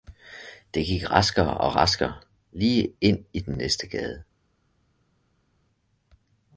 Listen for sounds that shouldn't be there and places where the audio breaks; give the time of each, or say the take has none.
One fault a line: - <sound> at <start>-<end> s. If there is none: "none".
none